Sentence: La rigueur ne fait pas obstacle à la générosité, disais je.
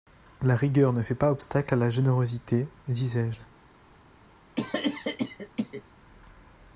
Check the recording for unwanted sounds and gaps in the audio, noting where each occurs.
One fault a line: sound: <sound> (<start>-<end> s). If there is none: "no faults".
sound: cough (4.6-5.8 s)